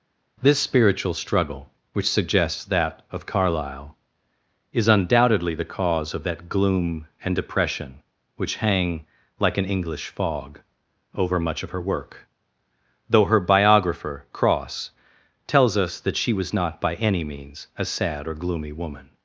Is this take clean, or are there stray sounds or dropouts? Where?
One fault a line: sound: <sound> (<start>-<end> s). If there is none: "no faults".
no faults